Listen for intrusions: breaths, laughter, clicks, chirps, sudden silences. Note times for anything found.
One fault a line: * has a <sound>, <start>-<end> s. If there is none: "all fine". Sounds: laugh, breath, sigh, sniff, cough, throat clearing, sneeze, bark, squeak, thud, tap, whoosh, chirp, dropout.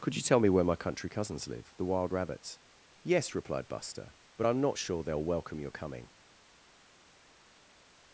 all fine